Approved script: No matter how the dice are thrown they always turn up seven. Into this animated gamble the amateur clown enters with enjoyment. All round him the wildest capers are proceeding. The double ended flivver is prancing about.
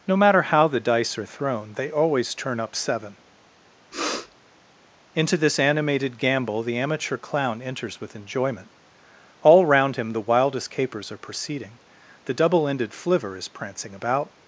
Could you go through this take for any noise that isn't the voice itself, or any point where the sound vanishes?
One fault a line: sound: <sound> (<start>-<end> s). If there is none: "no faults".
sound: sniff (3.9-4.4 s)